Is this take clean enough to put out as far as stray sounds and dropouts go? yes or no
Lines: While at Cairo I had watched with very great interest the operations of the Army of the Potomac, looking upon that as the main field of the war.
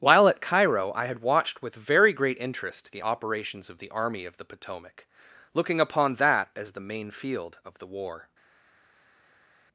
yes